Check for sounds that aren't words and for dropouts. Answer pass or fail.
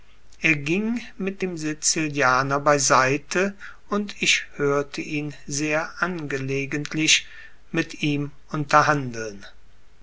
pass